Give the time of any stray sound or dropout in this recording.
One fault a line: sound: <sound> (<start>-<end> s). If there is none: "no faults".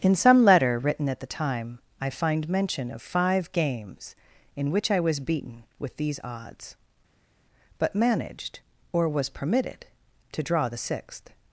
no faults